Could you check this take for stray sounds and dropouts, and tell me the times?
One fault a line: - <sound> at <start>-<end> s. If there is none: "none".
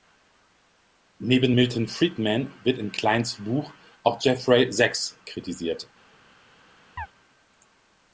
- chirp at 7.0-7.1 s